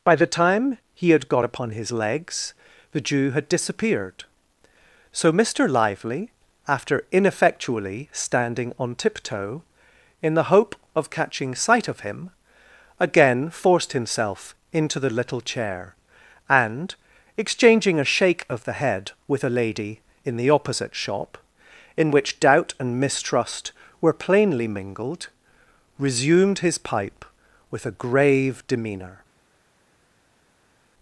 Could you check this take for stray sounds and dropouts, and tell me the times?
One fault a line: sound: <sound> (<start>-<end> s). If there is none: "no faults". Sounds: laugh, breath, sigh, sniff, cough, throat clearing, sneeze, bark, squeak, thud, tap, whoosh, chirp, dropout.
no faults